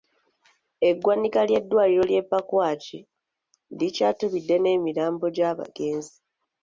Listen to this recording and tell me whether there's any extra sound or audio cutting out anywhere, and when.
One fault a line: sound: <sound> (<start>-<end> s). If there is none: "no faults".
no faults